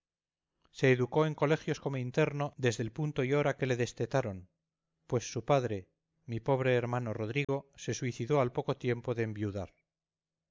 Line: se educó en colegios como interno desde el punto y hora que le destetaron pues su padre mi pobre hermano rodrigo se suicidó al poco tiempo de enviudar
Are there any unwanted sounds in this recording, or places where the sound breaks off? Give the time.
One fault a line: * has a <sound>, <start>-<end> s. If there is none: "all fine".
* has a dropout, 7.4-7.5 s